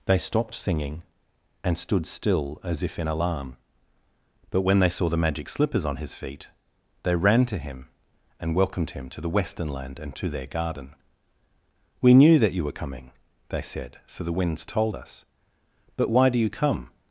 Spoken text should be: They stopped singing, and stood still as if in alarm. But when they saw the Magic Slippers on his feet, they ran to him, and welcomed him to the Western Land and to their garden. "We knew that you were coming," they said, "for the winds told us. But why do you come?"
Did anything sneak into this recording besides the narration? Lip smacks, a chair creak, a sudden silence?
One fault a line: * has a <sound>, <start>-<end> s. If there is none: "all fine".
all fine